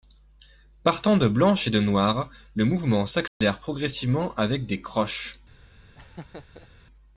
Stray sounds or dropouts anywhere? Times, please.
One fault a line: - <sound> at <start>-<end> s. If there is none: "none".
- dropout at 3.3-3.4 s
- laugh at 6.0-6.7 s